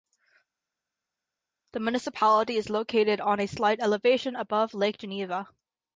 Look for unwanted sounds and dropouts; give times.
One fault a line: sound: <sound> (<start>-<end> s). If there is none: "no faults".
no faults